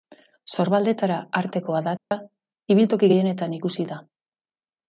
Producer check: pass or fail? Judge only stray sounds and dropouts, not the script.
fail